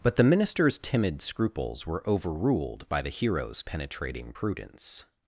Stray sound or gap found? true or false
false